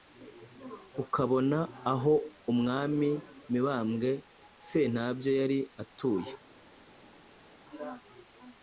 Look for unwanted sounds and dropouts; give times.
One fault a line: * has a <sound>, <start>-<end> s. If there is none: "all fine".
all fine